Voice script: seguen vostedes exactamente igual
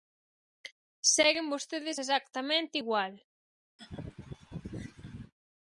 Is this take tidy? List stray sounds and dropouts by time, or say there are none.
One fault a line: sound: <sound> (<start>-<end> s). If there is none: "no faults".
sound: laugh (3.8-5.3 s)